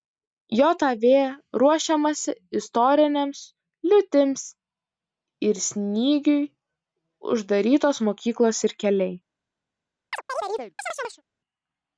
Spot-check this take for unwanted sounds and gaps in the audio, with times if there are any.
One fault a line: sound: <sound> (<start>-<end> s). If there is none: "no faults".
sound: chirp (10.1-11.2 s)